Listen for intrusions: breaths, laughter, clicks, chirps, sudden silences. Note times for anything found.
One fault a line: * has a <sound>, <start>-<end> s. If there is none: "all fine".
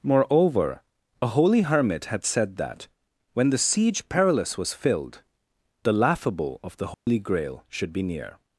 * has a dropout, 6.9-7.1 s